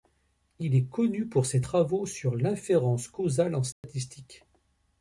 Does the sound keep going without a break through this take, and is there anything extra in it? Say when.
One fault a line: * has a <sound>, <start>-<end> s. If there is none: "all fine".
* has a dropout, 3.7-3.8 s